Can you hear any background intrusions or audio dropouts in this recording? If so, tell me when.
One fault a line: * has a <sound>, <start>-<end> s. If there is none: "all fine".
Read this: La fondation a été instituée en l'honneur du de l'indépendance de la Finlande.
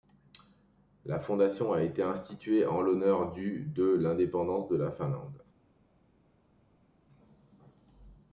all fine